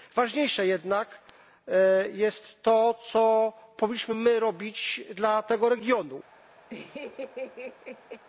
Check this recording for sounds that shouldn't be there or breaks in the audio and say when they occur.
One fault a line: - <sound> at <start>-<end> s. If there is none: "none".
- laugh at 6.7-8.2 s